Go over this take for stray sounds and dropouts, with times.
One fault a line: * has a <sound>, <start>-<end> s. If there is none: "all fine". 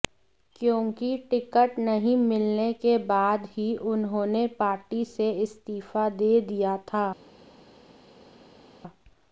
all fine